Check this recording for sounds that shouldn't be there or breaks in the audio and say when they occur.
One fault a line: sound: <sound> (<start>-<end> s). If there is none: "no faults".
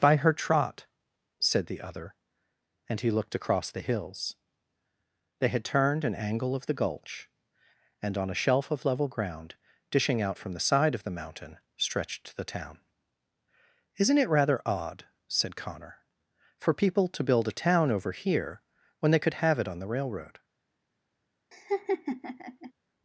sound: laugh (21.5-22.7 s)